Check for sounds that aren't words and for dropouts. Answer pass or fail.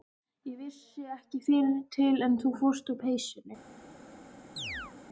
fail